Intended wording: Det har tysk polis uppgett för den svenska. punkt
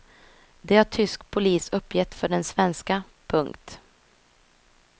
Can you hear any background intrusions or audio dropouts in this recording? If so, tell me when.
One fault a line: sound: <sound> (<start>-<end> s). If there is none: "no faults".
no faults